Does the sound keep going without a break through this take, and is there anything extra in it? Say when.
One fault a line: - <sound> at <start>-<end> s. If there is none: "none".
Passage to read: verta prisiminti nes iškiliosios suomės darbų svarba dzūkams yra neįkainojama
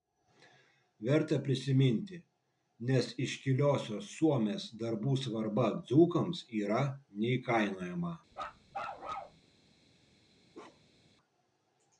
- bark at 8.3-9.4 s
- bark at 10.5-11.1 s